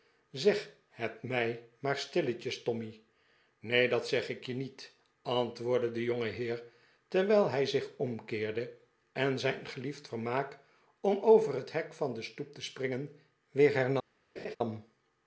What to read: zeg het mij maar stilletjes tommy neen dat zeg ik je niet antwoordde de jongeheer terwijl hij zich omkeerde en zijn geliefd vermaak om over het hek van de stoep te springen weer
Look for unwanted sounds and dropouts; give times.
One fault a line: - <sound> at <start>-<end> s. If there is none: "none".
- laugh at 14.4-14.6 s